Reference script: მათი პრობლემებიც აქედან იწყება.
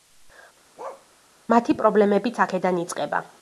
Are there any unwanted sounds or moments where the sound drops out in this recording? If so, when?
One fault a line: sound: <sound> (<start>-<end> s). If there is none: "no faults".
sound: bark (0.8-1.1 s)